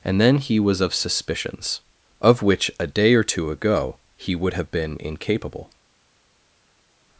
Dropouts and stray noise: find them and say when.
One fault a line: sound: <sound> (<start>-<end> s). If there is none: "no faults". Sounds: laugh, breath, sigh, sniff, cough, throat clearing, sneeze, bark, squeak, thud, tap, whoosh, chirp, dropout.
no faults